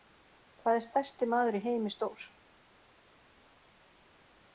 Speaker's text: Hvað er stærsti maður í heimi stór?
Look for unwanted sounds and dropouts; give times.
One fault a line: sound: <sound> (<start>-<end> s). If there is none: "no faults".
no faults